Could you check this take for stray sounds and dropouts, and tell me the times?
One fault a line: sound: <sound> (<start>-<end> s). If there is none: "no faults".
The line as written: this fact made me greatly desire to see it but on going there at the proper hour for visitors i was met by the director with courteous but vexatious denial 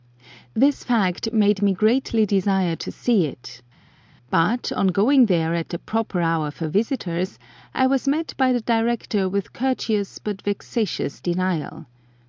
no faults